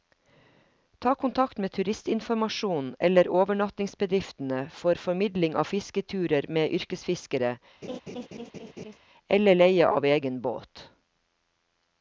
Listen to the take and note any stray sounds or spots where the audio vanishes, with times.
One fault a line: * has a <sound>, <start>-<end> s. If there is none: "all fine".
* has a laugh, 7.8-9.0 s